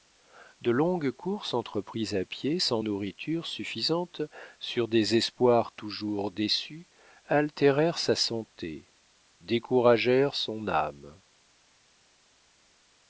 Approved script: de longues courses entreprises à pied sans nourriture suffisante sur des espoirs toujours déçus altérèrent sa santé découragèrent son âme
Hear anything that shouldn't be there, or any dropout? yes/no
no